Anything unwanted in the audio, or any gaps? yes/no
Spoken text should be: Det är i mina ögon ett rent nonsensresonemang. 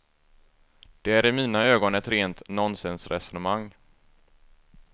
no